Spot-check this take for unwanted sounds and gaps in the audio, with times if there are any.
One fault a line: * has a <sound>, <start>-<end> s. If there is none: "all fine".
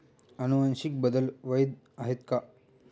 all fine